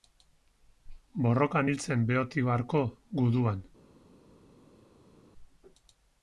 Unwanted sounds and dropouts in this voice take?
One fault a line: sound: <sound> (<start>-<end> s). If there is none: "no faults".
no faults